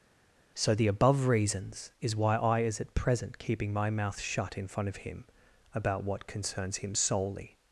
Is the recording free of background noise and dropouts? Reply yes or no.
yes